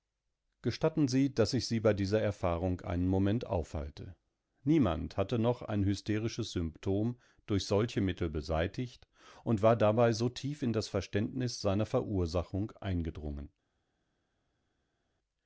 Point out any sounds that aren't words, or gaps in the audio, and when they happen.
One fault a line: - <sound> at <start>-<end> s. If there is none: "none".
none